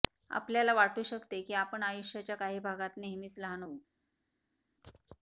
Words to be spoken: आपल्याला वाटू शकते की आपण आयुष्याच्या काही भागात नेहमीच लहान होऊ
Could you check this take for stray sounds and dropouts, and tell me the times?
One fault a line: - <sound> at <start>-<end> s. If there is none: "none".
none